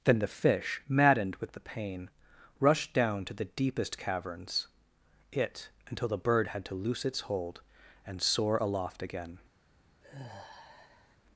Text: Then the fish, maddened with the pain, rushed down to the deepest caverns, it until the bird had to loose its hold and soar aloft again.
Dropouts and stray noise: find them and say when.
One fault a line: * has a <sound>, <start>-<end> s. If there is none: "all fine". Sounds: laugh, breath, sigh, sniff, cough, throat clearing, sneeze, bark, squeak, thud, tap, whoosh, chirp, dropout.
* has a sigh, 10.0-11.2 s